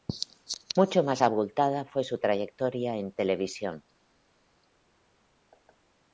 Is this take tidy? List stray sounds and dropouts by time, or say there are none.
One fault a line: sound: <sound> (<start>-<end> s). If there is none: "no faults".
no faults